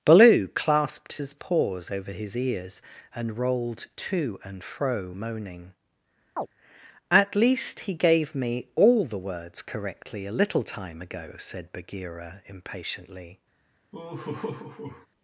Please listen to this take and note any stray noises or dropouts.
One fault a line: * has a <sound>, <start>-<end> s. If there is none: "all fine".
* has a chirp, 6.4-6.5 s
* has a laugh, 13.9-15.1 s